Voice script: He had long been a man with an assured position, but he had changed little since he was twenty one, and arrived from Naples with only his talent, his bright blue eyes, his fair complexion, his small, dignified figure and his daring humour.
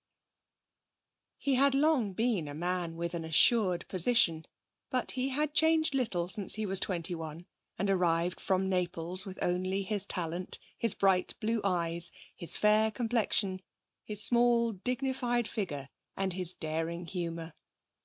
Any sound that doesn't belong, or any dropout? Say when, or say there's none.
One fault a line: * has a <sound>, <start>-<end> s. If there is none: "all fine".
all fine